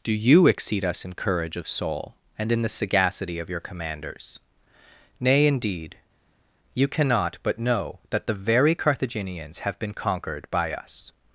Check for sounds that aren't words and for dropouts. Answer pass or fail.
pass